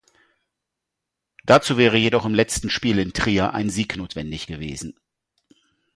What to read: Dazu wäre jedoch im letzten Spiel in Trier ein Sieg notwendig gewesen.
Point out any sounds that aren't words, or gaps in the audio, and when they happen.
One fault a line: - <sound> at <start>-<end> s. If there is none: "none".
none